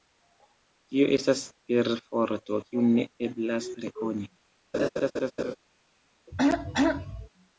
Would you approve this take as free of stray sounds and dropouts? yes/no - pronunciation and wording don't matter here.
no